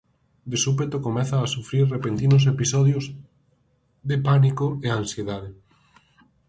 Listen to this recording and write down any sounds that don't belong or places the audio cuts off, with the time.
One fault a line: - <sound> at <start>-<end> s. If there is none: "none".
none